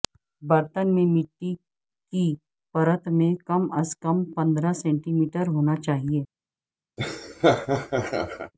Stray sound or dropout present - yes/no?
yes